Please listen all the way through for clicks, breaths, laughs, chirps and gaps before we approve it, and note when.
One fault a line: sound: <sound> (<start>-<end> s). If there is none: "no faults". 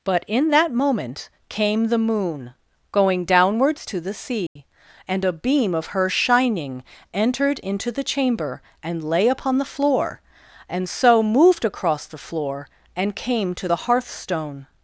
sound: dropout (4.5-4.6 s)